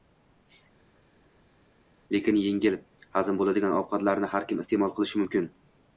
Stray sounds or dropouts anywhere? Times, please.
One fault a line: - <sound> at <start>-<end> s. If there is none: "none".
none